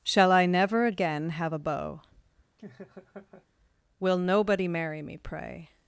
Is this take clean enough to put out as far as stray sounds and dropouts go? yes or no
no